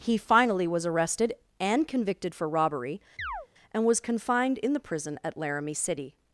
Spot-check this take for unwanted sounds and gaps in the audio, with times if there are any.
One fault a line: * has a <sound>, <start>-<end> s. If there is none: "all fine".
* has a chirp, 3.2-3.5 s